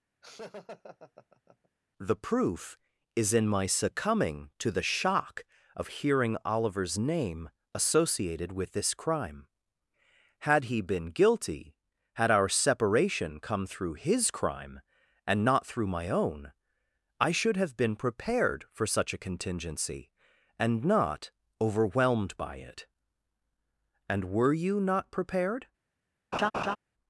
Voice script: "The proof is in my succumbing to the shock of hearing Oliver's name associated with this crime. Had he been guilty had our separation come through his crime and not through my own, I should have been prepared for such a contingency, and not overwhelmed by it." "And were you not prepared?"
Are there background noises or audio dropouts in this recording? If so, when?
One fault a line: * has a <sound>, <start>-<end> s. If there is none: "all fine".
* has a laugh, 0.2-1.7 s
* has a laugh, 26.3-26.8 s